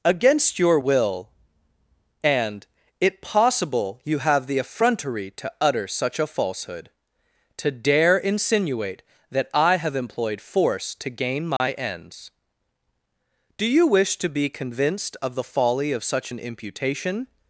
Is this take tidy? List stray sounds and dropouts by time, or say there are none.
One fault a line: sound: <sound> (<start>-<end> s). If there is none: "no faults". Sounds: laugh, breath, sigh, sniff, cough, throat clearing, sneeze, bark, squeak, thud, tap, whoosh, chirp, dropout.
sound: dropout (11.6-11.6 s)